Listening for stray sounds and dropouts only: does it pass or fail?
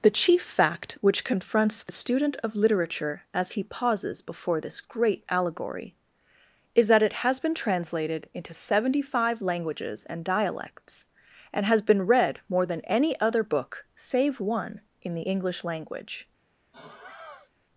fail